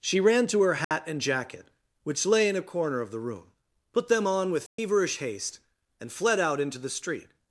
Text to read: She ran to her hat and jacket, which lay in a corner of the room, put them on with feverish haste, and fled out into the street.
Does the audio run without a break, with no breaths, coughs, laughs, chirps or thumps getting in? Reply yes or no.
no